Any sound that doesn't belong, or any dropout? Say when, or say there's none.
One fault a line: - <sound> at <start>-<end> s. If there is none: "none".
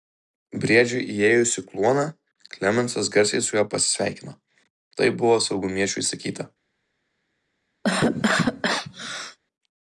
- cough at 7.8-9.4 s